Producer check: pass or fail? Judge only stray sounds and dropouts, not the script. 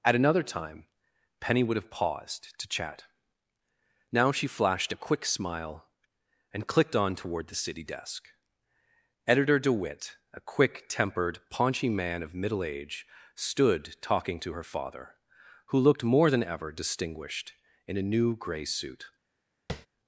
fail